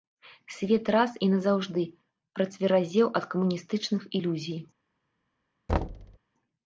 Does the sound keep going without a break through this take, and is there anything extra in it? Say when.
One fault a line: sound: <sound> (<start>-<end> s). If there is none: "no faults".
sound: thud (5.7-6.2 s)